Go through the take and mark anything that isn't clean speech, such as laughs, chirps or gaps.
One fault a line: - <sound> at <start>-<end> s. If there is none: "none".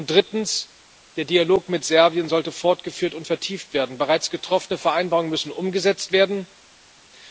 none